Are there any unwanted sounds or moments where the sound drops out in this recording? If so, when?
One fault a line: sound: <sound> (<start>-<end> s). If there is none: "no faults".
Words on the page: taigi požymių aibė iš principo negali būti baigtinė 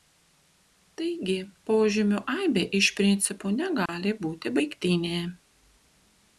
sound: dropout (3.9-3.9 s)